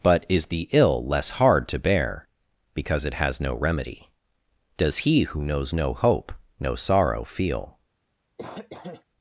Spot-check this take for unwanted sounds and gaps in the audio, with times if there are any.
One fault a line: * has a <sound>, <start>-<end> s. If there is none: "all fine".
* has a cough, 8.4-9.0 s